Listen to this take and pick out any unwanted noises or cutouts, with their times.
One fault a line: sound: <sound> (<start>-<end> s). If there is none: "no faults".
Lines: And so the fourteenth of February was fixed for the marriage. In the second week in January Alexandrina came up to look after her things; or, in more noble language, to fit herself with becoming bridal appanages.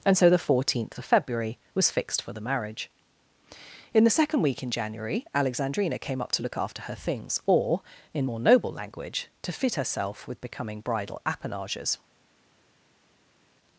no faults